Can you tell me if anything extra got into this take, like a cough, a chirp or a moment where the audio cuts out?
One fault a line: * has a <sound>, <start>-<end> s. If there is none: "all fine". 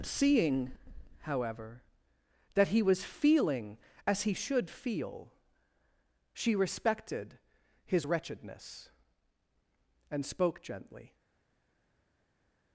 all fine